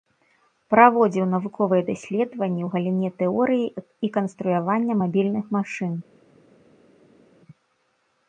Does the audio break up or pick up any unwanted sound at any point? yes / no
no